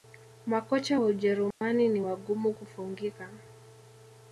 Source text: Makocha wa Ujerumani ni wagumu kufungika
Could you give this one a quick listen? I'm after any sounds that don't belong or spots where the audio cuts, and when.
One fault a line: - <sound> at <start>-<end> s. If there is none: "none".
- dropout at 1.5-1.6 s